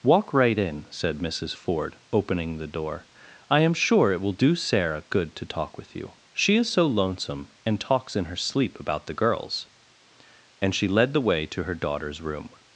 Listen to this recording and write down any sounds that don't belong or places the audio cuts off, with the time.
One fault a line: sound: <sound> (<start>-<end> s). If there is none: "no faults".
no faults